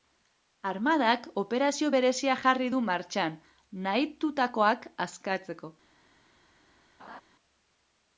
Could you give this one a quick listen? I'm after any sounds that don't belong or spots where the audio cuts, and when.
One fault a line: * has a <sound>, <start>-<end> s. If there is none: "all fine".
* has a laugh, 7.0-7.2 s